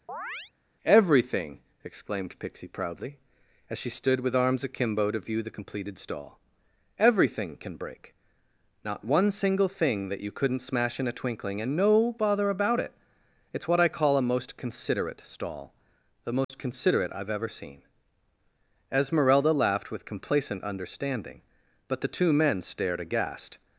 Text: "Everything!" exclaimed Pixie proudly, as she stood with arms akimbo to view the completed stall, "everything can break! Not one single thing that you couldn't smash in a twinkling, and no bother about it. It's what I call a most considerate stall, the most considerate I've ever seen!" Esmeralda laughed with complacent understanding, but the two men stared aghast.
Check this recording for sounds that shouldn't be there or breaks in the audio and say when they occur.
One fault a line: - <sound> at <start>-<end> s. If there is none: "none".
- chirp at 0.1-0.5 s
- dropout at 16.4-16.5 s